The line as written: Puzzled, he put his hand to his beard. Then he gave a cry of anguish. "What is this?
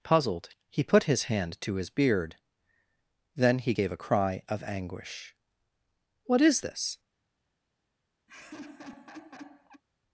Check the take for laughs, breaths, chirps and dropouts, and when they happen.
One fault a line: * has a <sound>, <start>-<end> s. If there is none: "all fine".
* has a laugh, 8.3-9.8 s